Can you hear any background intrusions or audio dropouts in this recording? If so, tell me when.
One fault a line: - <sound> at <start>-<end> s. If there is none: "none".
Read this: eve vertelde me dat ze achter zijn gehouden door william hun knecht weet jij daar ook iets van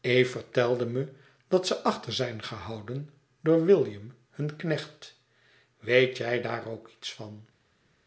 none